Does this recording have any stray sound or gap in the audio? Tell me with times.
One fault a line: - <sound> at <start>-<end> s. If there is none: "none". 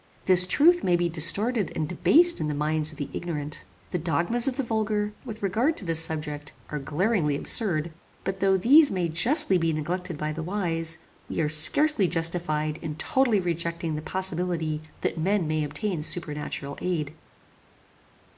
none